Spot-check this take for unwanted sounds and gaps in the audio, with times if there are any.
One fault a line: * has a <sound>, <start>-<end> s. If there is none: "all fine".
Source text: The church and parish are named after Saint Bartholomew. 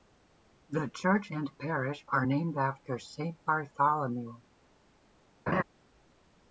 * has a laugh, 5.5-5.6 s